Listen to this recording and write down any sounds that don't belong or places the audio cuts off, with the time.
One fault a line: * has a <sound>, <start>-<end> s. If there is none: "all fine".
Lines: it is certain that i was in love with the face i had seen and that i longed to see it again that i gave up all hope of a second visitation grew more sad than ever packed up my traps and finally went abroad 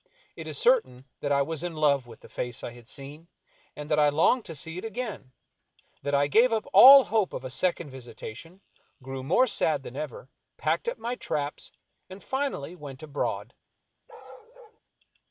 * has a bark, 14.1-14.8 s